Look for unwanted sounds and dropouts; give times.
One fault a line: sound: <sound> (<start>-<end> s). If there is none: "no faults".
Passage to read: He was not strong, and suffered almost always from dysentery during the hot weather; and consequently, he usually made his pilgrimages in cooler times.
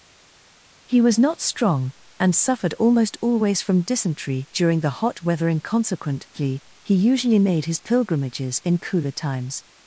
no faults